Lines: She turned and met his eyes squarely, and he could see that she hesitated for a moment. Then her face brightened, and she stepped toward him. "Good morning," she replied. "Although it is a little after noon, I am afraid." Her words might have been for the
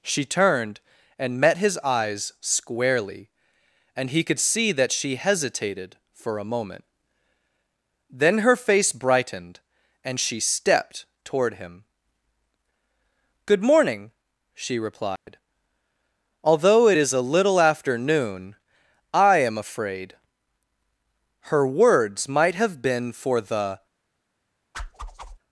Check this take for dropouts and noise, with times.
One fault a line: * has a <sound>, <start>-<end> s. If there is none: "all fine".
* has a dropout, 15.2-15.3 s
* has a whoosh, 24.7-25.4 s